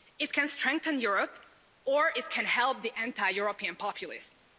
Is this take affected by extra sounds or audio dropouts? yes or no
no